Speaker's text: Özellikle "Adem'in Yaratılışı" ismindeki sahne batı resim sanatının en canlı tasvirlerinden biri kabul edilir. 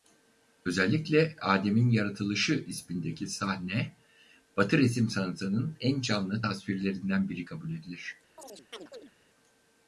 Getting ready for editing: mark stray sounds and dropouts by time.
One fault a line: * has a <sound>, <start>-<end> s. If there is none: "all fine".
* has a chirp, 8.4-9.1 s